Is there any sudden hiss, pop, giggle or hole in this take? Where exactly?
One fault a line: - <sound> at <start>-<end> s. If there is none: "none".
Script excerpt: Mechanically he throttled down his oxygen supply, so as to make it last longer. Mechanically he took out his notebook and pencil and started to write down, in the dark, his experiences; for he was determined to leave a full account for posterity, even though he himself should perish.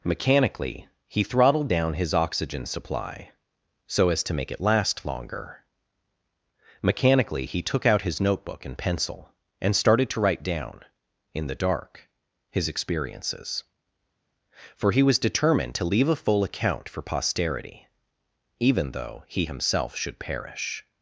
none